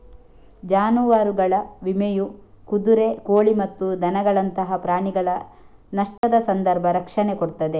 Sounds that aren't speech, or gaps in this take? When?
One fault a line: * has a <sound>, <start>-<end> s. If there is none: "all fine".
* has a dropout, 6.2-6.2 s